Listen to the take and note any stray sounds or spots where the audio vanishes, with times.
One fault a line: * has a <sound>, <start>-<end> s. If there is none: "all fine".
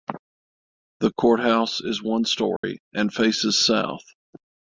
* has a dropout, 2.6-2.6 s